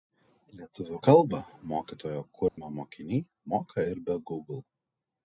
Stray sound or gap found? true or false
true